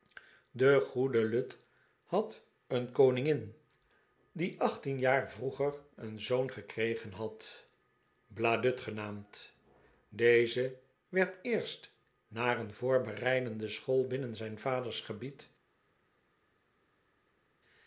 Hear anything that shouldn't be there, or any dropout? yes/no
no